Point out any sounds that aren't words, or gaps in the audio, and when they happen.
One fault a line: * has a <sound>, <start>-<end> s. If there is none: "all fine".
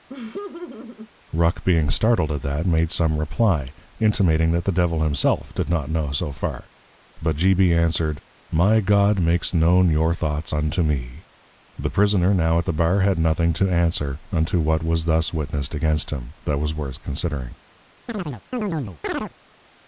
* has a laugh, 0.1-1.1 s
* has a chirp, 18.1-19.3 s